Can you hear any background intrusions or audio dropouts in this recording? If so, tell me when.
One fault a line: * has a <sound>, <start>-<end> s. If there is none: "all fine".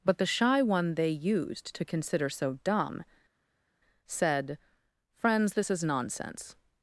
all fine